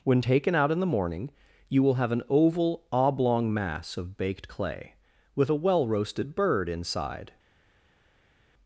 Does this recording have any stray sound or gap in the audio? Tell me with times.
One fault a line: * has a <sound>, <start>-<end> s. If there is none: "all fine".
all fine